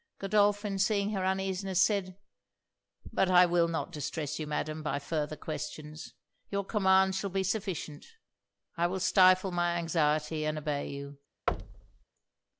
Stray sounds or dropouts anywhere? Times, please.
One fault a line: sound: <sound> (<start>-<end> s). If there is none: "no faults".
sound: thud (11.5-12.0 s)